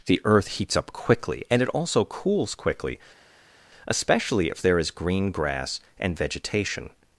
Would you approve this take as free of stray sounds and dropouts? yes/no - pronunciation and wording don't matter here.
yes